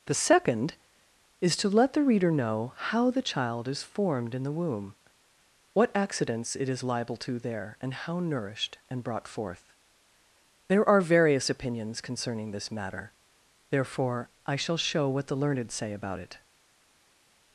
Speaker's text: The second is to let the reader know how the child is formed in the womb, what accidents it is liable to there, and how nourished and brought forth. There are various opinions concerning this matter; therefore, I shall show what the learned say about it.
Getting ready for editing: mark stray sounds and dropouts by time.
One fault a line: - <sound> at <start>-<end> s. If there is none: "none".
none